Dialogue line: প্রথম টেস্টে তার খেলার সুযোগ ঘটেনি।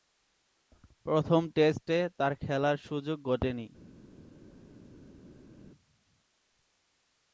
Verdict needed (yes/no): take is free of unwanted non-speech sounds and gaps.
yes